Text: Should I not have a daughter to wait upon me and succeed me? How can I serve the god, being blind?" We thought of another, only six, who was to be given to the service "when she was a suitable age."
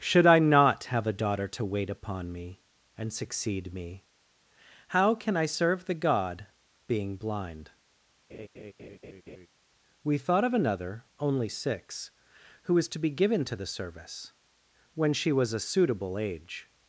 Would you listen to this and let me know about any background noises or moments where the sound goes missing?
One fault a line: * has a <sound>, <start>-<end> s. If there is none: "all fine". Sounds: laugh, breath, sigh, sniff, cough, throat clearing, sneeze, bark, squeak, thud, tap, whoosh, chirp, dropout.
* has a laugh, 8.3-9.5 s